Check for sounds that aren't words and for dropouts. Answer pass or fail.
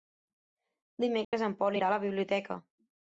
fail